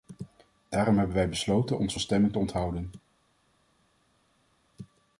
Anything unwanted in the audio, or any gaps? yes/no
no